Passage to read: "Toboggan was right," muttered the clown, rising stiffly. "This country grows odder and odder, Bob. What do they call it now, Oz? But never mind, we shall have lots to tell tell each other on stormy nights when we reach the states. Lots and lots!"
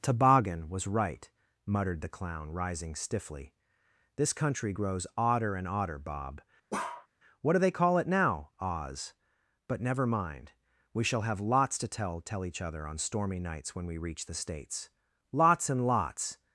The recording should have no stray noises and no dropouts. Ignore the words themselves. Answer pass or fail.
fail